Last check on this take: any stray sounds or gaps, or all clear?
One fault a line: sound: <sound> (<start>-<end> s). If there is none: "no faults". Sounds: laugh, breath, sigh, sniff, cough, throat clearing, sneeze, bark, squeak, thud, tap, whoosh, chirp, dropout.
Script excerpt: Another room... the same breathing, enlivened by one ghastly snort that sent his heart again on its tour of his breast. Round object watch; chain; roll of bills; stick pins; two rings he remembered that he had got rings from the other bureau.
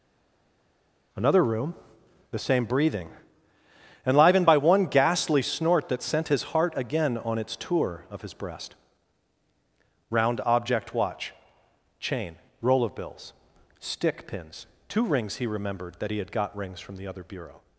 no faults